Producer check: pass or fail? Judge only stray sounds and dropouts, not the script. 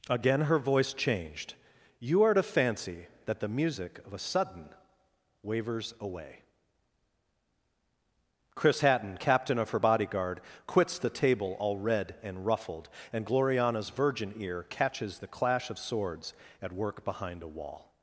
pass